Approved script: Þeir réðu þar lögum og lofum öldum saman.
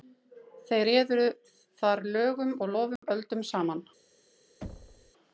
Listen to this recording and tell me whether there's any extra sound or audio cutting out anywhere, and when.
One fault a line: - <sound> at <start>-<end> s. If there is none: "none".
- dropout at 3.0-3.0 s
- thud at 4.6-5.1 s